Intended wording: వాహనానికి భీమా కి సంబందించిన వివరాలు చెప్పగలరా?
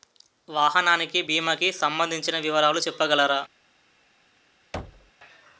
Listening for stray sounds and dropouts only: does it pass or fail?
fail